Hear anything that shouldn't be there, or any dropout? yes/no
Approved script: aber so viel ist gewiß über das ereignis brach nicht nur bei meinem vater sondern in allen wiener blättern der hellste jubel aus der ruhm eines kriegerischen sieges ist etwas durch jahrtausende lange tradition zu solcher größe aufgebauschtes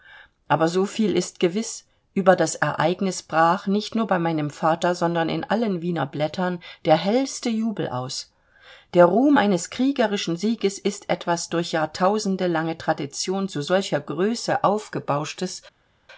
no